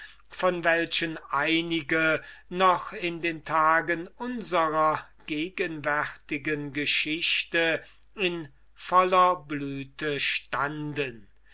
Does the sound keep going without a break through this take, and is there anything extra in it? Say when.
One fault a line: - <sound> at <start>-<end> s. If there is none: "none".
none